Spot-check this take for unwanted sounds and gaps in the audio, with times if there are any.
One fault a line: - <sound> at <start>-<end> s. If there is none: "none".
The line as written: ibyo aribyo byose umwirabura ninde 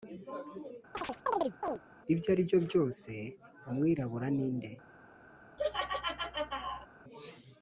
- chirp at 0.9-1.8 s
- laugh at 5.6-6.9 s